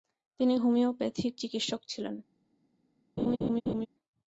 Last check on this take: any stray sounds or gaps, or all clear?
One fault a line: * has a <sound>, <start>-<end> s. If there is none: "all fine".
* has a laugh, 3.2-3.9 s